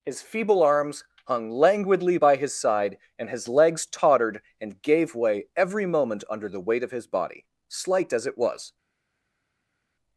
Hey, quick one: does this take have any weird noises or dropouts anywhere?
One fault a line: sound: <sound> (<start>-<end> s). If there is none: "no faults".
no faults